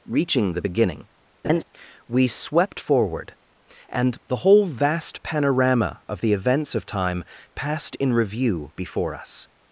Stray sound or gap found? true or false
true